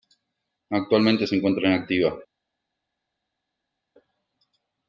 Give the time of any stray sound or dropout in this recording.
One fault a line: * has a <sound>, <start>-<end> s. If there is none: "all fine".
all fine